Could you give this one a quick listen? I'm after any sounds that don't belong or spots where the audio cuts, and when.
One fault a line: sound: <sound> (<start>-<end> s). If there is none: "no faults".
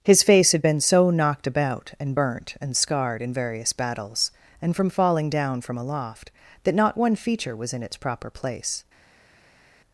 no faults